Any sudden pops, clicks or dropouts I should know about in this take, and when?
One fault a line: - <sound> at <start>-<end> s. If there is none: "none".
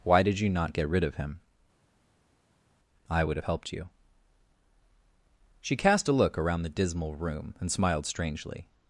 none